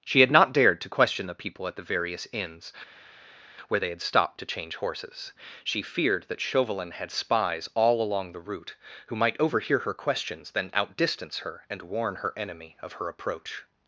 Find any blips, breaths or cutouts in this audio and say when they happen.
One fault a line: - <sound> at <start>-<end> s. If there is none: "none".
none